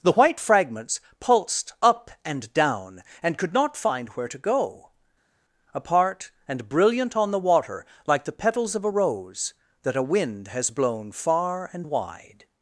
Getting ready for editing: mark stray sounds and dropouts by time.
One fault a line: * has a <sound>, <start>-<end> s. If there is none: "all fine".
all fine